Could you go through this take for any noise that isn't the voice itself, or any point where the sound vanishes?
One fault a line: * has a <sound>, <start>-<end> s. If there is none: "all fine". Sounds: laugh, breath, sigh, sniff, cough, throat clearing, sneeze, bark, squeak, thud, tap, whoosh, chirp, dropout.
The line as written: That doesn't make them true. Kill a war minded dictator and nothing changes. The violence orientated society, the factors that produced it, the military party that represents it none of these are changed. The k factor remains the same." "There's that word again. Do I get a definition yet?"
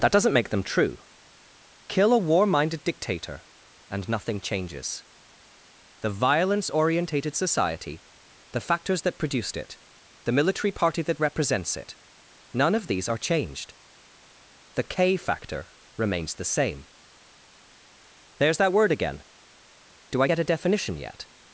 all fine